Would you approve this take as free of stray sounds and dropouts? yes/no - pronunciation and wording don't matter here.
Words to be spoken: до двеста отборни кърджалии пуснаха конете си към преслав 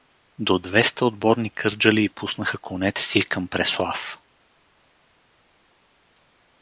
yes